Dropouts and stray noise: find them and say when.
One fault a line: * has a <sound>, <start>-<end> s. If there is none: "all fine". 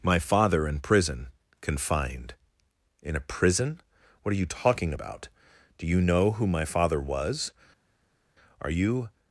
all fine